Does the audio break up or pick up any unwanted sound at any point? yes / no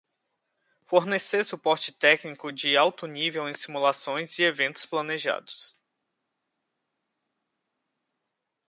no